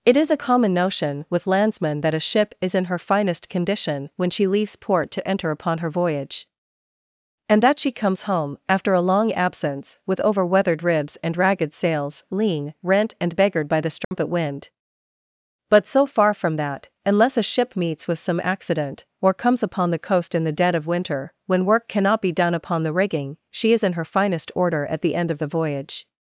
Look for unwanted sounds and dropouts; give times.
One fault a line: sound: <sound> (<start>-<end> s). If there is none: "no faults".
sound: dropout (14.0-14.1 s)